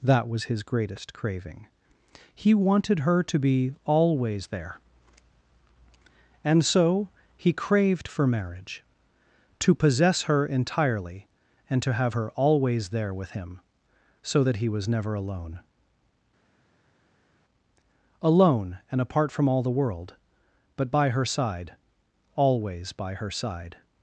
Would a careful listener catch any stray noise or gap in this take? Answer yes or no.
no